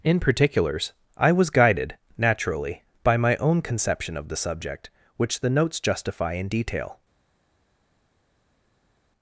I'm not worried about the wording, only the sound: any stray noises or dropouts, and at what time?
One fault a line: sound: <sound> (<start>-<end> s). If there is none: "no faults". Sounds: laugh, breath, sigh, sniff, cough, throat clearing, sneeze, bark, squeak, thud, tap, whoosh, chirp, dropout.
no faults